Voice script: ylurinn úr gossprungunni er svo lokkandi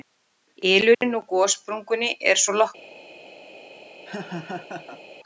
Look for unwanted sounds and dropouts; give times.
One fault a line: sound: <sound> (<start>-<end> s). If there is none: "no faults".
sound: dropout (0.9-1.0 s)
sound: laugh (4.1-5.0 s)